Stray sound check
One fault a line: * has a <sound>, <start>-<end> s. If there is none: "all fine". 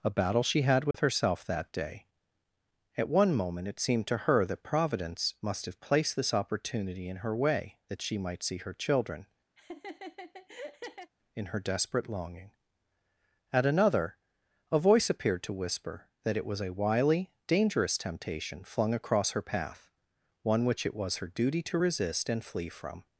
* has a dropout, 0.9-0.9 s
* has a laugh, 9.6-11.1 s